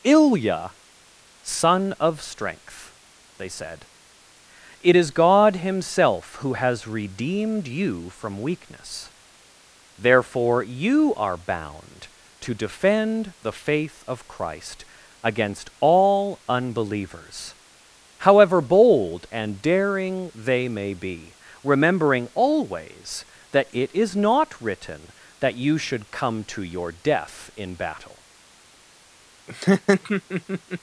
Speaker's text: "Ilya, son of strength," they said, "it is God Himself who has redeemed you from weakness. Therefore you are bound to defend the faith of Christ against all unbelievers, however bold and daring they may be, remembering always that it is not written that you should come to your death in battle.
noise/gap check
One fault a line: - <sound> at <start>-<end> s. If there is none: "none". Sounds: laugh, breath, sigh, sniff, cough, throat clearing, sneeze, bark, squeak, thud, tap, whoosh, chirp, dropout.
- laugh at 29.5-30.8 s